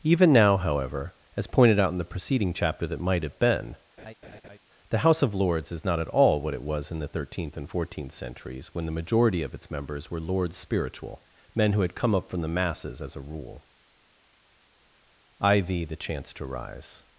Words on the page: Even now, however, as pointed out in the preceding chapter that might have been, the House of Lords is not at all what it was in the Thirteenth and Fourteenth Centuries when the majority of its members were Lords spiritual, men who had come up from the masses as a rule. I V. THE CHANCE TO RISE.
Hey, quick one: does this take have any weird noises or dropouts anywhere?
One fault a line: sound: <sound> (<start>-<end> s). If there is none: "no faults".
sound: laugh (4.0-4.6 s)